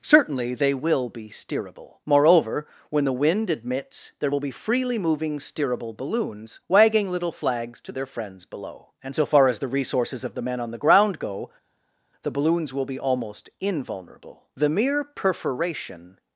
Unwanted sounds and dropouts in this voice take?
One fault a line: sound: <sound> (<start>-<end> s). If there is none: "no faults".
no faults